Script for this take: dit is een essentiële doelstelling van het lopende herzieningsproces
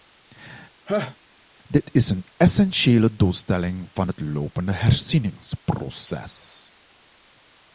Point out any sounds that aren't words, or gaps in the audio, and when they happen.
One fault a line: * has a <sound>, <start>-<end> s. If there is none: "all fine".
* has a laugh, 0.9-1.2 s